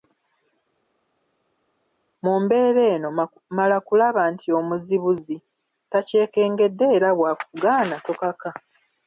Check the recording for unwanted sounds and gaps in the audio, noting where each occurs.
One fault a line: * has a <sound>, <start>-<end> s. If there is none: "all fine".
all fine